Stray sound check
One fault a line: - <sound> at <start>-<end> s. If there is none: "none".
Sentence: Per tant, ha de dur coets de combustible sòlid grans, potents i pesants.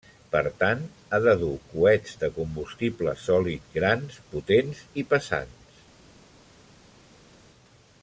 none